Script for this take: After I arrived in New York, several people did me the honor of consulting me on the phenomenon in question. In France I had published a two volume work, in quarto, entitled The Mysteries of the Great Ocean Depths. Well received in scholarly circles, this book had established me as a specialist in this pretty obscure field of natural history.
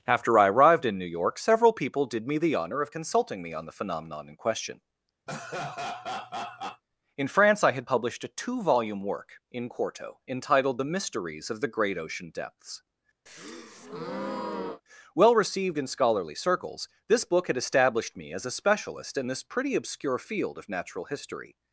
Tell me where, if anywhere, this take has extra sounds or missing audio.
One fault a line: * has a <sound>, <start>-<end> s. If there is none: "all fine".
* has a laugh, 5.3-6.8 s
* has a breath, 13.3-14.8 s